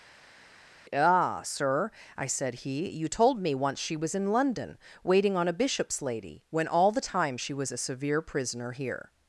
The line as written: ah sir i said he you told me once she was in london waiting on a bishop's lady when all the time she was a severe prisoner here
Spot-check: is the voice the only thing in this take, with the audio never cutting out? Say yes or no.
yes